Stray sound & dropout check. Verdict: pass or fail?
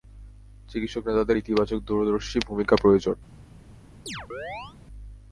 fail